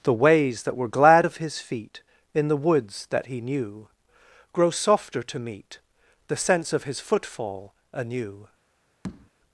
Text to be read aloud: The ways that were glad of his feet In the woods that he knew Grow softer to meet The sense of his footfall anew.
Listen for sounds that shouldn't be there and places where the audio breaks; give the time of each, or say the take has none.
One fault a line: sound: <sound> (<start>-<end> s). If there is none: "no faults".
sound: tap (9.0-9.3 s)